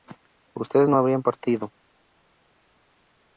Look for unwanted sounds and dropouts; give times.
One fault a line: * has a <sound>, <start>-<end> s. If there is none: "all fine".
all fine